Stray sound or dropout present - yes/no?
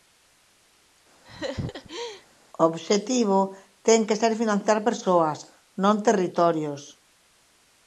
yes